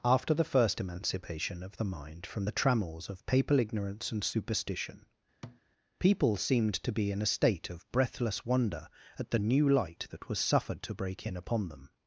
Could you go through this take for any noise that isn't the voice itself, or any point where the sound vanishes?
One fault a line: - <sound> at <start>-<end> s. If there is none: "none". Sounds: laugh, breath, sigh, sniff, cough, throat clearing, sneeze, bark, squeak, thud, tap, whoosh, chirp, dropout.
- thud at 5.4-5.6 s